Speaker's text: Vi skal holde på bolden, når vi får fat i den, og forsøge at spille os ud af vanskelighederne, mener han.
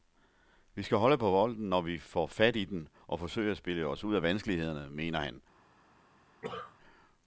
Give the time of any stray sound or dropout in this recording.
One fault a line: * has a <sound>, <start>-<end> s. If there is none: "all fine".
* has a cough, 6.4-6.8 s